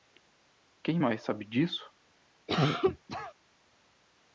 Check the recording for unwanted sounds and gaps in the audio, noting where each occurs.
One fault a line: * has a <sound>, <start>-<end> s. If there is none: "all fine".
* has a cough, 2.5-3.3 s